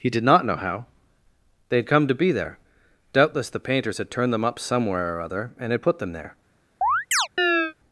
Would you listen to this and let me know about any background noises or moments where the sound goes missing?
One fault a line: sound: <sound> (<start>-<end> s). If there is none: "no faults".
sound: chirp (6.8-7.7 s)